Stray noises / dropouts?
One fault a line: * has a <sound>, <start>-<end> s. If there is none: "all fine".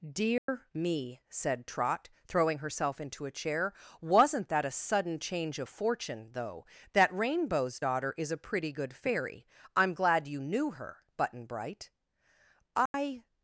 * has a dropout, 0.4-0.5 s
* has a dropout, 12.9-12.9 s